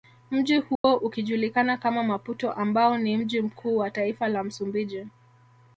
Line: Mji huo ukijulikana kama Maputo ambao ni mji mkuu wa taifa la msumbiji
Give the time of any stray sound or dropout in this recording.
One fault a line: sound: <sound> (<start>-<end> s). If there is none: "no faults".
sound: dropout (0.8-0.8 s)